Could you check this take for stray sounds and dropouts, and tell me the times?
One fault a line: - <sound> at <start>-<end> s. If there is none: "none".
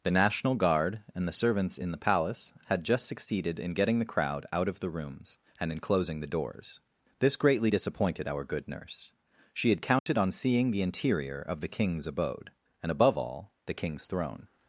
- dropout at 10.0-10.1 s